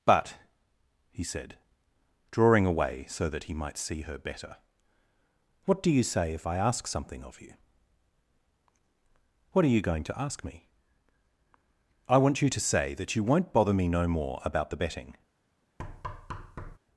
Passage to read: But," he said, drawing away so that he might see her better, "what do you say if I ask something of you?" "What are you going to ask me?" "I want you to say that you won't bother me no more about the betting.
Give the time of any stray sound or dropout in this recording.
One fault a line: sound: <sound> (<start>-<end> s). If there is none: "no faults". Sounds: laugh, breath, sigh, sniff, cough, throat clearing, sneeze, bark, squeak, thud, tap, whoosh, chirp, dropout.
sound: thud (15.8-16.8 s)